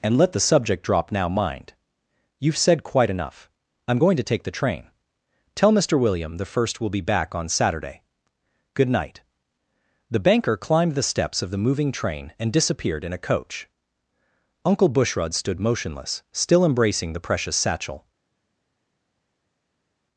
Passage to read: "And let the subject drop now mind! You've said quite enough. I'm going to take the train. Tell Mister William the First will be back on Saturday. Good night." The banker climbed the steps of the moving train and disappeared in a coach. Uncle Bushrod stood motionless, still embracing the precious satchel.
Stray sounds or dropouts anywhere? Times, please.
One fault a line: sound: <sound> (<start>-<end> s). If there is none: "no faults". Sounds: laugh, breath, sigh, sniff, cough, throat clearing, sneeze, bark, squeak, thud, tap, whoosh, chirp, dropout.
no faults